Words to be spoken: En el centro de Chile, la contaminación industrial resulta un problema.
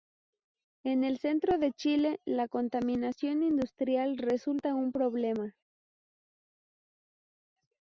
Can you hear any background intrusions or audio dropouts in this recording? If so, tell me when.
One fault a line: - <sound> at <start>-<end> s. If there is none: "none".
none